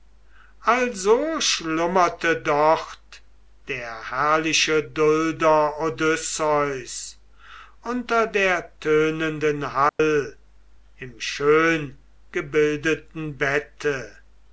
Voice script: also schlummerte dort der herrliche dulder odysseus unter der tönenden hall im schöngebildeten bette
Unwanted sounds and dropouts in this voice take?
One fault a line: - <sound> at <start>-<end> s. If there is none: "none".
- dropout at 9.9-10.0 s